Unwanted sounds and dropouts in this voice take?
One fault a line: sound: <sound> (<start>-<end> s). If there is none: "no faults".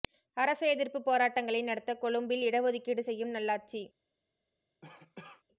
sound: cough (4.8-5.4 s)